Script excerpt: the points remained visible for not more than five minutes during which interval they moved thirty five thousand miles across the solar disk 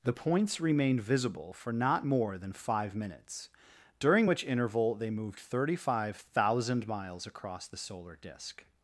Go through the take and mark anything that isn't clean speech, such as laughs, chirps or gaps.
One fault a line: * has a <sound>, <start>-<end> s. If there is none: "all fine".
all fine